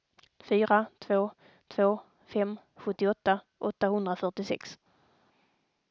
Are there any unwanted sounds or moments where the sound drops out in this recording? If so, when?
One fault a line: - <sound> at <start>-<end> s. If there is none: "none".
none